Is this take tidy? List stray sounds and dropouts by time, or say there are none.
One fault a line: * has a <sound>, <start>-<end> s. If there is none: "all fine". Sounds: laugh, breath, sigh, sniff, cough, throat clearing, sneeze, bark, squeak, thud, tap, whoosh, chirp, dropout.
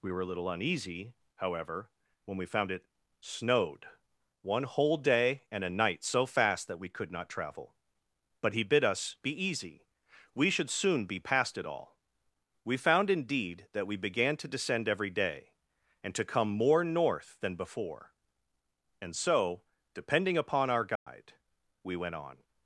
* has a dropout, 21.0-21.1 s